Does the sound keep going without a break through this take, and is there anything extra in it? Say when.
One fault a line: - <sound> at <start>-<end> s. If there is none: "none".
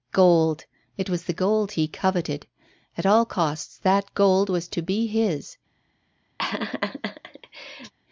- laugh at 6.4-7.9 s